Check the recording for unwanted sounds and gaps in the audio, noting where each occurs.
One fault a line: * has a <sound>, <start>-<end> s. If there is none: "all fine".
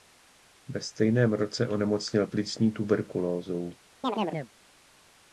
* has a chirp, 4.0-4.5 s